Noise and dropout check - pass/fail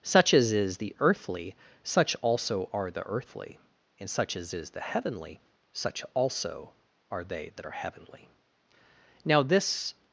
pass